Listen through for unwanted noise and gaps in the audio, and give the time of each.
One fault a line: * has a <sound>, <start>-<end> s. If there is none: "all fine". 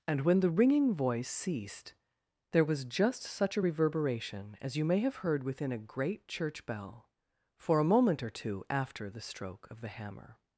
all fine